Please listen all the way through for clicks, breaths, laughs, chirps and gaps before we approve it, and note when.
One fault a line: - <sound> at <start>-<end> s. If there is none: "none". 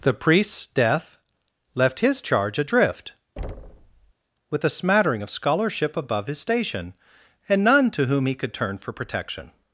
- thud at 3.4-4.1 s